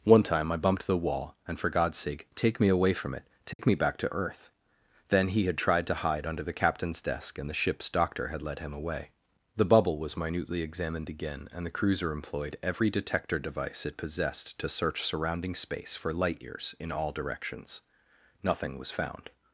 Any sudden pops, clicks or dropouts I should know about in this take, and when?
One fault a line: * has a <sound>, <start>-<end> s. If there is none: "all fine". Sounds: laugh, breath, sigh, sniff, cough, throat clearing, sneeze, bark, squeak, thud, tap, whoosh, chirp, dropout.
* has a dropout, 3.5-3.6 s